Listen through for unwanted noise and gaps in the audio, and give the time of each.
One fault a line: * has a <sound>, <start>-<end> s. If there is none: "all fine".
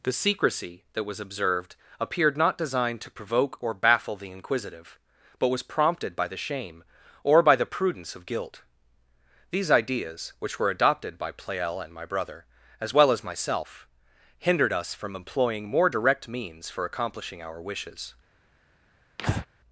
* has a breath, 19.2-19.5 s